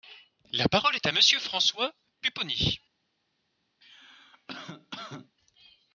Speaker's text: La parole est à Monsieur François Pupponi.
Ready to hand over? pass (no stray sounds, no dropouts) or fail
fail